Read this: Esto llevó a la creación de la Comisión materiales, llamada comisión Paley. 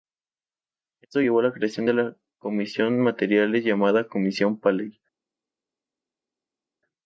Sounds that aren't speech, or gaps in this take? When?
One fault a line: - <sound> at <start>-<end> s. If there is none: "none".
none